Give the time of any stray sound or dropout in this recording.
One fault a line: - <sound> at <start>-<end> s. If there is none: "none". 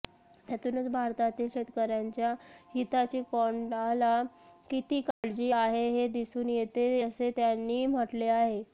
- dropout at 5.1-5.2 s